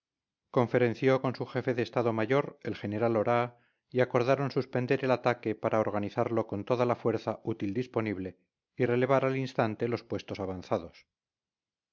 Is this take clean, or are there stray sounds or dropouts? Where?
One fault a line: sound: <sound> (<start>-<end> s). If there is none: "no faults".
no faults